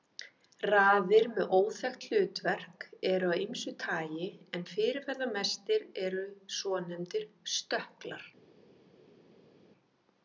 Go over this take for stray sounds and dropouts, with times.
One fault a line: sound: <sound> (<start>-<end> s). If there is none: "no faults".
no faults